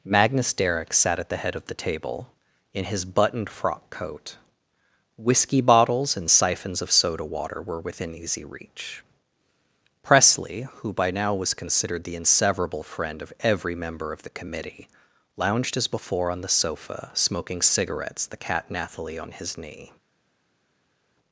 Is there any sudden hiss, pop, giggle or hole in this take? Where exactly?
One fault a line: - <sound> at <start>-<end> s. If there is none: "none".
none